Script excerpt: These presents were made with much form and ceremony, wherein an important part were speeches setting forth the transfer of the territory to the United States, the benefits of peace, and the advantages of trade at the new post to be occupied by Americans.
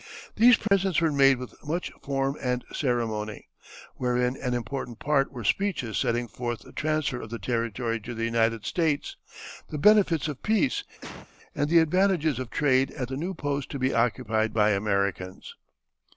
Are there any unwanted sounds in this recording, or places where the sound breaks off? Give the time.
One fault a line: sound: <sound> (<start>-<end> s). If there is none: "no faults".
sound: dropout (0.7-0.7 s)
sound: cough (11.0-11.3 s)